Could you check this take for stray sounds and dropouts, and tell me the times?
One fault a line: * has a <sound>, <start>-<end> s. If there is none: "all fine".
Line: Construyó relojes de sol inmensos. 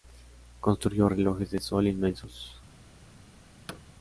* has a thud, 3.7-3.8 s